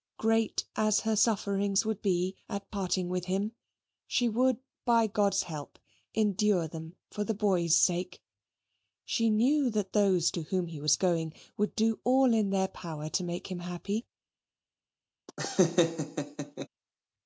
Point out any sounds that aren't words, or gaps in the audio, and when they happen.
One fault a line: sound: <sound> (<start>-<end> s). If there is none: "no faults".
sound: laugh (15.3-16.7 s)